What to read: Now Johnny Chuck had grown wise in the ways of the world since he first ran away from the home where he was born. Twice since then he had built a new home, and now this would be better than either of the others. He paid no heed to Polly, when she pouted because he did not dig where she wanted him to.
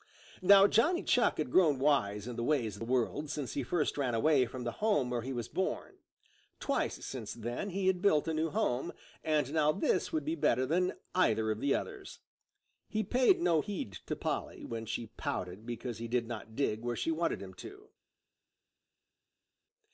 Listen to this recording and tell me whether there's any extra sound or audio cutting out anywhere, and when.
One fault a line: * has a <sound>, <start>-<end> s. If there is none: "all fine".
all fine